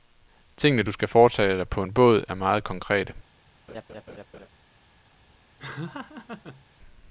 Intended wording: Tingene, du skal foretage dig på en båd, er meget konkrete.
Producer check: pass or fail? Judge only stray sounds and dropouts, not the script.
fail